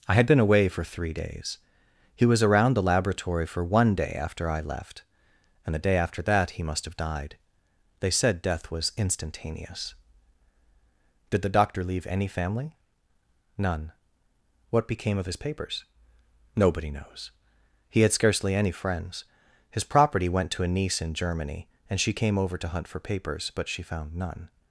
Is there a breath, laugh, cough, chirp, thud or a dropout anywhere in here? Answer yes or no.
no